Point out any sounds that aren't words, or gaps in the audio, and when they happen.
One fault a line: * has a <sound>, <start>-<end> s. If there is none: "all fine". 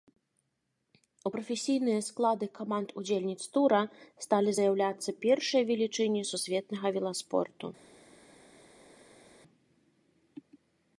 all fine